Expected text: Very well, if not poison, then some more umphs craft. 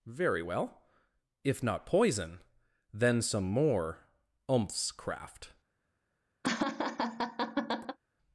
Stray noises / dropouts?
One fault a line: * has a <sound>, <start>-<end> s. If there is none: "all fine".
* has a laugh, 6.4-8.0 s